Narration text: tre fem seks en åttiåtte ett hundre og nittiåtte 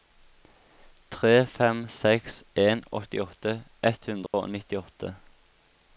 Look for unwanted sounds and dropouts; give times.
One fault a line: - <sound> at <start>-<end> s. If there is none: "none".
- dropout at 4.3-4.3 s